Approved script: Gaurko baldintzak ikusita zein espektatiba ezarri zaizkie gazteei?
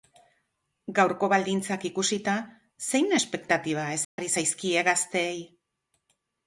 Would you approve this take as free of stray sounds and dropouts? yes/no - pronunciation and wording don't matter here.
no